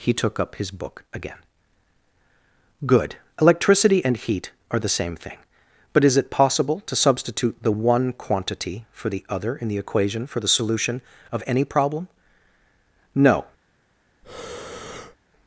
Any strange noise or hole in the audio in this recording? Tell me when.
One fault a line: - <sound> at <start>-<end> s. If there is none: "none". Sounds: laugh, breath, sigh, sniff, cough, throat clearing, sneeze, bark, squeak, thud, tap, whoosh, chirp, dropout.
- breath at 14.2-15.2 s